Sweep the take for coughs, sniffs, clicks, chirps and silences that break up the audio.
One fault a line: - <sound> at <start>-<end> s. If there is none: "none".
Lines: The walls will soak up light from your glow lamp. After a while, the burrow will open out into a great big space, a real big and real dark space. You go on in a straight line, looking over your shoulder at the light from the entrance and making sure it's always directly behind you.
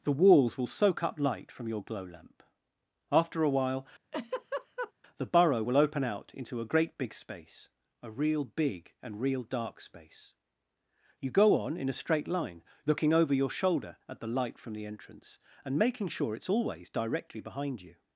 - laugh at 4.1-4.9 s